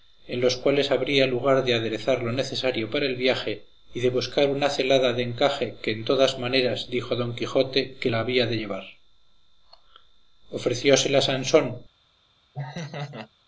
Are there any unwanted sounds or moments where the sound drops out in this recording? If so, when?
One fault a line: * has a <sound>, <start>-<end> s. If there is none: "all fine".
* has a laugh, 12.5-13.3 s